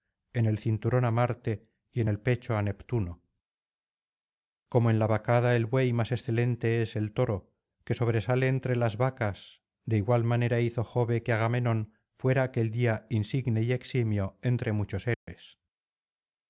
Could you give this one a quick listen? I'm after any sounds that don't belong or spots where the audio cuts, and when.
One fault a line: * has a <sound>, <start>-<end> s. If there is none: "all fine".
* has a dropout, 15.1-15.3 s